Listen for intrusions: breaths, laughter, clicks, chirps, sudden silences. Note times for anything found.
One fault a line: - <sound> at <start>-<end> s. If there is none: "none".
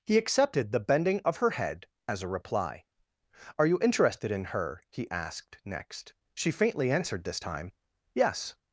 none